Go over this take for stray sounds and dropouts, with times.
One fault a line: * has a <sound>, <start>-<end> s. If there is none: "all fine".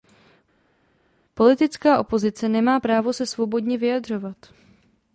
all fine